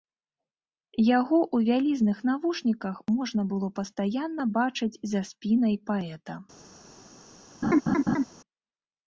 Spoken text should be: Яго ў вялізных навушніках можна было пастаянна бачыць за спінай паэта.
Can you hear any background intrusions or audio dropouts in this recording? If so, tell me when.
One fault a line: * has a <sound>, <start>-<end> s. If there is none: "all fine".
* has a laugh, 7.6-8.2 s